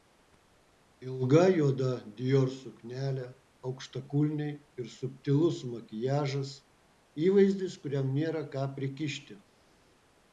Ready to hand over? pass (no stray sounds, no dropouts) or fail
pass